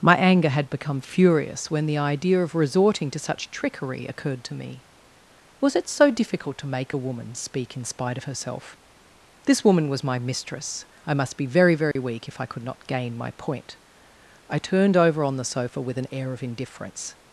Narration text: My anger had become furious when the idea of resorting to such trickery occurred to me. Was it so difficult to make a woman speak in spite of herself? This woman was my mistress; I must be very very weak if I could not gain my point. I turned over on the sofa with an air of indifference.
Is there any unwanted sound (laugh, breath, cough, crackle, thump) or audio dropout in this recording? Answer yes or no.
yes